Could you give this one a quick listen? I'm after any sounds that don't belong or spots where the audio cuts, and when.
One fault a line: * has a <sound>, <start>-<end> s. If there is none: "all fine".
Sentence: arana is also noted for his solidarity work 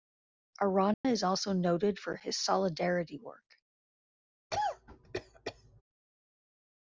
* has a dropout, 0.9-1.0 s
* has a cough, 4.5-5.8 s